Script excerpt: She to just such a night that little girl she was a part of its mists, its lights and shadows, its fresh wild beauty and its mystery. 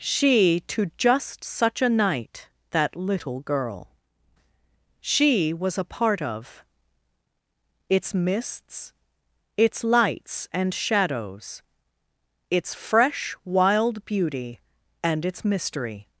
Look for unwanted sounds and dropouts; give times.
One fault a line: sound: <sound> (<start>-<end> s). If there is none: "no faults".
no faults